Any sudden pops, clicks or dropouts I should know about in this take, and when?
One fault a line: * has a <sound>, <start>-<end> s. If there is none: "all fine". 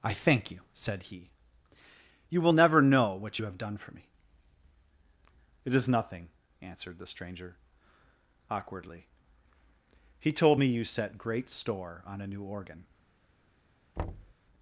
* has a thud, 14.0-14.3 s